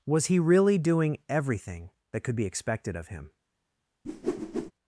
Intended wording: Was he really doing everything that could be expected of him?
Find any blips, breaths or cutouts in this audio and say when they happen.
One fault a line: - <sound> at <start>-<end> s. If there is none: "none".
- whoosh at 4.0-4.7 s